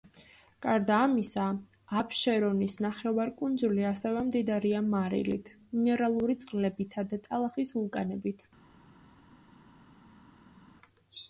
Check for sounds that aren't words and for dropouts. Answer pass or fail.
pass